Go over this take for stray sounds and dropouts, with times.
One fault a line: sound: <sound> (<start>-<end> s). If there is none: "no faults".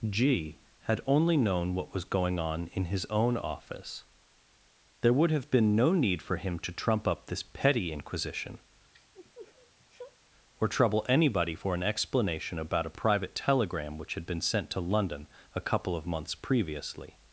sound: sniff (8.9-10.2 s)